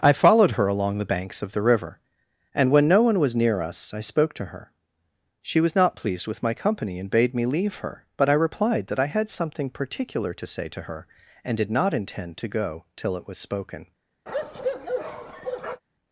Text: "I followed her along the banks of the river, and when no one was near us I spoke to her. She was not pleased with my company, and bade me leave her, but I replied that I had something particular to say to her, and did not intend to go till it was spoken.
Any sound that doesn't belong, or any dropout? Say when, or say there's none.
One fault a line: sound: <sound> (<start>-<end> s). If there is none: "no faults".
sound: bark (14.3-15.8 s)